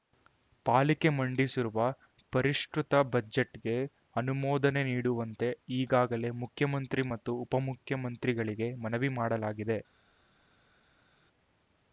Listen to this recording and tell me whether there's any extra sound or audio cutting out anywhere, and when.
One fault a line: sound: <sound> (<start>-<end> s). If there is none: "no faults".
no faults